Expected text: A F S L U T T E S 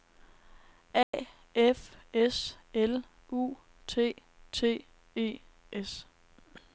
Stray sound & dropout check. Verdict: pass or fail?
fail